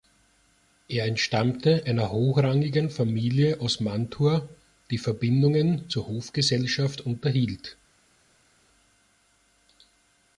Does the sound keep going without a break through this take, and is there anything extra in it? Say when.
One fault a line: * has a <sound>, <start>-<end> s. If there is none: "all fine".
all fine